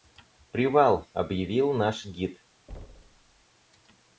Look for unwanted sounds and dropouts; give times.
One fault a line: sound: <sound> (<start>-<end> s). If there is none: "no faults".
sound: thud (2.7-3.4 s)